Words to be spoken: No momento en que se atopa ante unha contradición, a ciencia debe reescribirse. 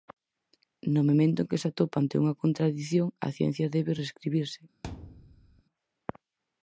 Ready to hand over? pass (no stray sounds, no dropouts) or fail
fail